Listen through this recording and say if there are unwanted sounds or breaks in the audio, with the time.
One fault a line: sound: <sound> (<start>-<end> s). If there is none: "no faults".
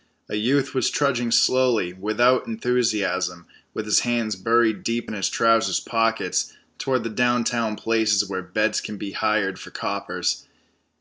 no faults